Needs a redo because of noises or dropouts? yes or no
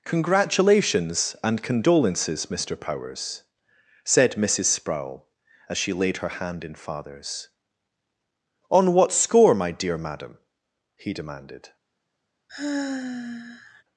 yes